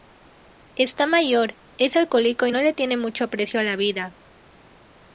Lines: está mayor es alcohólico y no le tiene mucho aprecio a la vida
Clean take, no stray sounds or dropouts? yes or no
yes